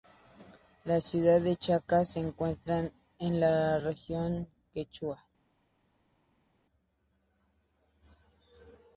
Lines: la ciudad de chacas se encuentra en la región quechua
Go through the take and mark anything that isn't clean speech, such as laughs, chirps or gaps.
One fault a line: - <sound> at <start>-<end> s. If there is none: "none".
none